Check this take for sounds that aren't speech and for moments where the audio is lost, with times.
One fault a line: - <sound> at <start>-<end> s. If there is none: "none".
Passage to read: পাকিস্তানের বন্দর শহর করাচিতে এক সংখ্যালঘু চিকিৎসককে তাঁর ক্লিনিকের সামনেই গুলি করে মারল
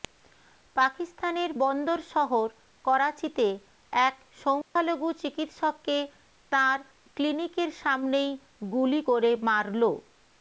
- dropout at 4.6-4.8 s